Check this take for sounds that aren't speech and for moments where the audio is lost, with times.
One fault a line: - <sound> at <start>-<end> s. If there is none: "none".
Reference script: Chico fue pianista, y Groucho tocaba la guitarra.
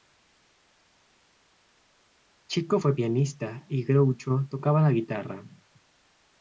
none